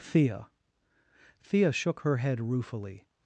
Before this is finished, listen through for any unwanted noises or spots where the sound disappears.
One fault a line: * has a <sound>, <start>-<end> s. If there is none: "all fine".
all fine